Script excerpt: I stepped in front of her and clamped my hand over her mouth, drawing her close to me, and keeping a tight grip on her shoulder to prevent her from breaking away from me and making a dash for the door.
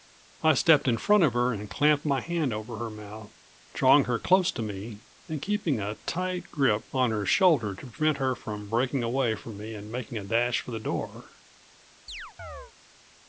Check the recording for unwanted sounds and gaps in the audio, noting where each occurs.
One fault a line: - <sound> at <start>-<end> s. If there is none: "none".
- chirp at 12.1-12.7 s